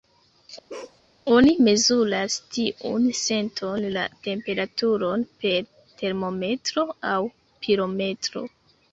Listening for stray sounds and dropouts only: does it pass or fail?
fail